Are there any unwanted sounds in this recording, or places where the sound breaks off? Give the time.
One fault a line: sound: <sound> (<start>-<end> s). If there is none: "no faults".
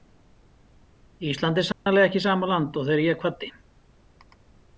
sound: dropout (1.7-1.9 s)